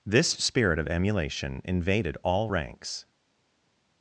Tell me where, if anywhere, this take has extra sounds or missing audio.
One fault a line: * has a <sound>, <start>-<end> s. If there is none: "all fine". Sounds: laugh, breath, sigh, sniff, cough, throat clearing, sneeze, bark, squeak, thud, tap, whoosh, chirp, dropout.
all fine